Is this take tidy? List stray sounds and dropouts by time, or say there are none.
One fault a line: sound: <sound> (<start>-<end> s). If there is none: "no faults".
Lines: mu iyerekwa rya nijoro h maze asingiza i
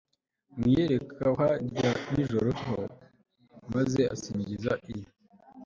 no faults